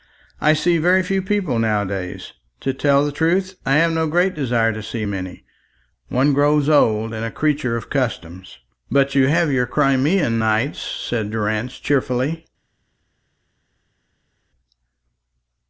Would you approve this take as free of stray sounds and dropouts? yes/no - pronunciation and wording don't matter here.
yes